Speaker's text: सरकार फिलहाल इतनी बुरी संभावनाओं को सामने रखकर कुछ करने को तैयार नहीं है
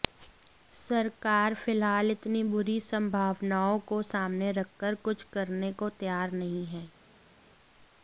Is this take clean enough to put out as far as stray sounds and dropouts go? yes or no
yes